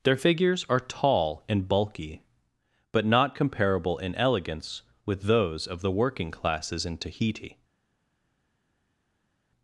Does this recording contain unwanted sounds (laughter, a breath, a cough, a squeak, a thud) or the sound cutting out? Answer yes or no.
no